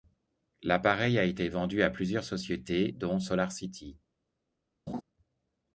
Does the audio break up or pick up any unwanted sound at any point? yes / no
yes